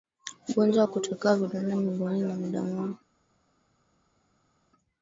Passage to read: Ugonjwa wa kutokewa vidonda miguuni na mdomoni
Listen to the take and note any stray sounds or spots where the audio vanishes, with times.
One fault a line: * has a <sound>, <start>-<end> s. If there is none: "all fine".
all fine